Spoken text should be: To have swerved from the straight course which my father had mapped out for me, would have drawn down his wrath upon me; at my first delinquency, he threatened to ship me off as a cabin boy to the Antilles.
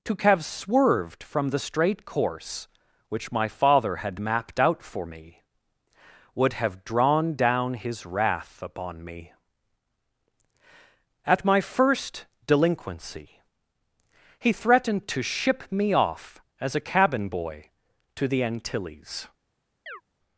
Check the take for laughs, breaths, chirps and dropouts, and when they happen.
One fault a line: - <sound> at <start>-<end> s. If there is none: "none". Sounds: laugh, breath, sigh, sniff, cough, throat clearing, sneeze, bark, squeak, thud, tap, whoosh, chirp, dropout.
- chirp at 19.9-20.0 s